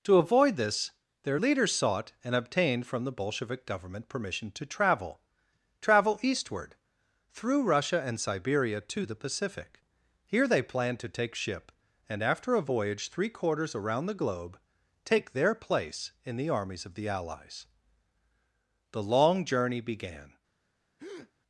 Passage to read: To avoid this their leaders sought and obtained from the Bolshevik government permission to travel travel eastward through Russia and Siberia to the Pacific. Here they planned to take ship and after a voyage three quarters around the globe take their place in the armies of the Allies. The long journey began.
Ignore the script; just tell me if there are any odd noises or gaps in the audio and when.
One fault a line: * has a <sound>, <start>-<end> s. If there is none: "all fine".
* has a breath, 21.0-21.3 s